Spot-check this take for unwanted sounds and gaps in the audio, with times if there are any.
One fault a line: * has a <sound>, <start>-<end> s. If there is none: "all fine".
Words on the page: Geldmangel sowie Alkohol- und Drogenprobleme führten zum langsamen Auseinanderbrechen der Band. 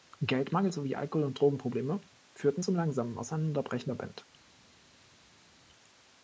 all fine